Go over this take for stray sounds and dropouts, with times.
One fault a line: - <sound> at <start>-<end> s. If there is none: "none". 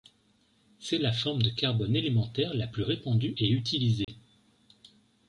- dropout at 4.0-4.1 s